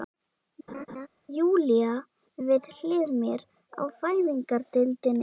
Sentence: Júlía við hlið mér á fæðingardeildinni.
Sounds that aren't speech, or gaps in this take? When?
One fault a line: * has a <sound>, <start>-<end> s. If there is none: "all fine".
* has a laugh, 0.7-1.1 s